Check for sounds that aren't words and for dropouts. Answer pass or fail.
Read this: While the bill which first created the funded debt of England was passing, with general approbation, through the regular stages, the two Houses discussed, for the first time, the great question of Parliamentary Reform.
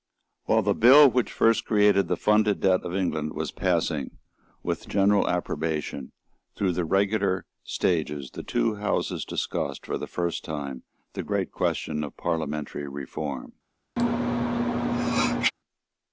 fail